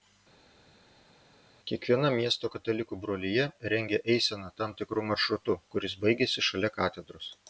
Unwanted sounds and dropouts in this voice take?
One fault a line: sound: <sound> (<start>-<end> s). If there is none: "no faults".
no faults